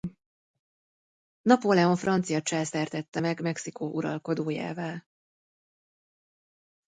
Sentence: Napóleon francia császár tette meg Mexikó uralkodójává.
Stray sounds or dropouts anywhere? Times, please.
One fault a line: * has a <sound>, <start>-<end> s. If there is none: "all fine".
all fine